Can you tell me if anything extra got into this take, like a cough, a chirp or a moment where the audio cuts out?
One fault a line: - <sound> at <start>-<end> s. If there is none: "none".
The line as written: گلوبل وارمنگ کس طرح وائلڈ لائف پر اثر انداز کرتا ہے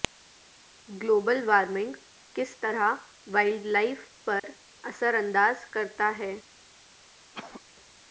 - dropout at 4.4-4.4 s
- cough at 7.3-7.6 s